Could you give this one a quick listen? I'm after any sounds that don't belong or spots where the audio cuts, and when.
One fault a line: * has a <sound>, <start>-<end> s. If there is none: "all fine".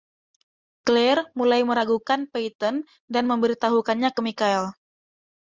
all fine